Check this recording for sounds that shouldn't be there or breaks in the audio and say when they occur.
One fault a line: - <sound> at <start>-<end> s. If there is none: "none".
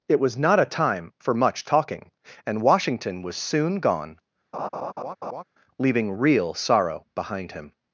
- laugh at 4.5-5.4 s